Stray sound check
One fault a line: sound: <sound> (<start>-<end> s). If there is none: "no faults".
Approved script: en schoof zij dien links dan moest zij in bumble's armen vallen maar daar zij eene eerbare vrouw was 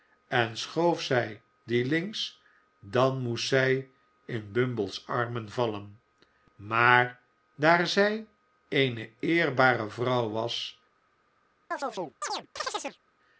sound: chirp (11.7-13.0 s)